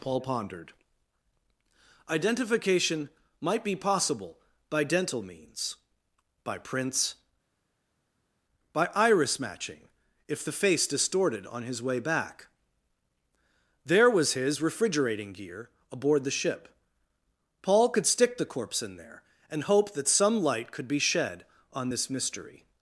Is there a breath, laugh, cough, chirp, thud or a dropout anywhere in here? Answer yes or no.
no